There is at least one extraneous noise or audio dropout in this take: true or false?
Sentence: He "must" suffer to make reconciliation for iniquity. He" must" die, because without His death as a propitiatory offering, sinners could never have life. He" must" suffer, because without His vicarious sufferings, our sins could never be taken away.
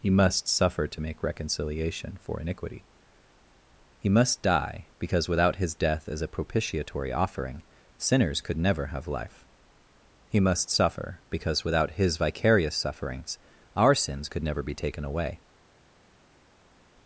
false